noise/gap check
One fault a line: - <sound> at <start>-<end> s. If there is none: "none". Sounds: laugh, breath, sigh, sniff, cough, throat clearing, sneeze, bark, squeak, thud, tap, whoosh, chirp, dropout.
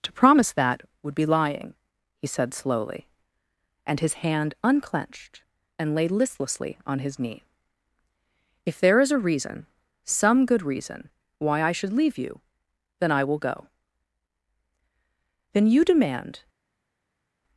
none